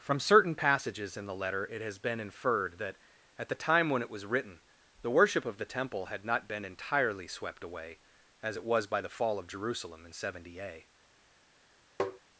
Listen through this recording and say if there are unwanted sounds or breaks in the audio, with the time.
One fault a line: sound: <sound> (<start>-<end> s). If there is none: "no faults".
sound: tap (12.0-12.2 s)